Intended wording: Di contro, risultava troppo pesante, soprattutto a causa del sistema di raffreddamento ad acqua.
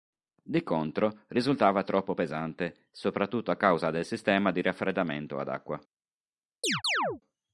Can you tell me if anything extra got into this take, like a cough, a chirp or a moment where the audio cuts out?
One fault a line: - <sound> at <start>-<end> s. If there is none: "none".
- chirp at 6.6-7.2 s